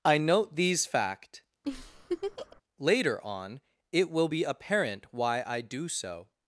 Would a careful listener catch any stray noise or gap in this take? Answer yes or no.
yes